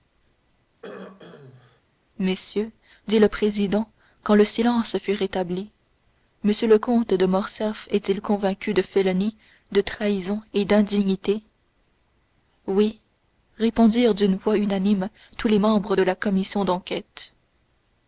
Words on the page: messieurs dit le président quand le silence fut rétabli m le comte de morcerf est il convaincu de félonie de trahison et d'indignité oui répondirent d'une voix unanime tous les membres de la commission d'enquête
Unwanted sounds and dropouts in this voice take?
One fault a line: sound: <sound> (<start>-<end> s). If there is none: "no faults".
sound: throat clearing (0.8-1.8 s)